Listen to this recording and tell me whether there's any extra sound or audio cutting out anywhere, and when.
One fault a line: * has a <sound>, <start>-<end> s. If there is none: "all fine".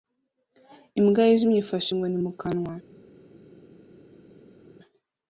all fine